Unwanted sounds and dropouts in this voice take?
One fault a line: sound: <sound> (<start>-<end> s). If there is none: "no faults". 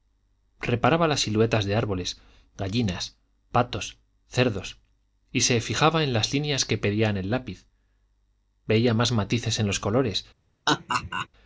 sound: laugh (10.7-11.3 s)